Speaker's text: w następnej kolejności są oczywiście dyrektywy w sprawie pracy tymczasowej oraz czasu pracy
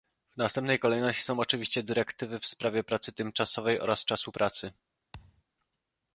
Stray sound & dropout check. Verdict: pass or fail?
fail